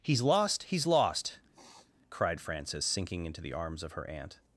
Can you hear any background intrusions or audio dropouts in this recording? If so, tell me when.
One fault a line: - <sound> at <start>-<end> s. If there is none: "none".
- sniff at 1.5-1.9 s